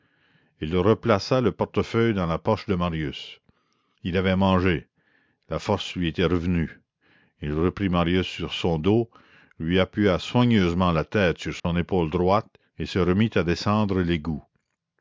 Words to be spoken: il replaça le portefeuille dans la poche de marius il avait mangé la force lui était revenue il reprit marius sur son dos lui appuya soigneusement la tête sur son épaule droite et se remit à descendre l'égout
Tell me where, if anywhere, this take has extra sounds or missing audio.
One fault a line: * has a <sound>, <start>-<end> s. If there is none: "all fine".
* has a dropout, 11.6-11.6 s